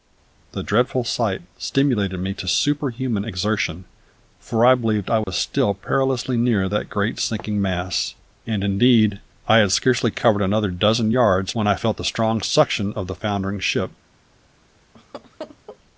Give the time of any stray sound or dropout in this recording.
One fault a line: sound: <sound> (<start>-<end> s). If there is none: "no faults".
sound: dropout (5.2-5.3 s)
sound: laugh (14.9-15.8 s)